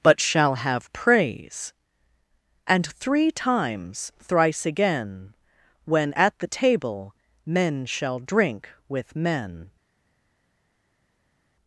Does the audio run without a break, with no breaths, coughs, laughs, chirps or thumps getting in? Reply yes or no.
yes